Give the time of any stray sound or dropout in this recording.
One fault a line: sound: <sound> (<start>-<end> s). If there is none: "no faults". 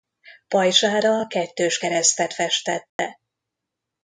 sound: dropout (2.9-3.0 s)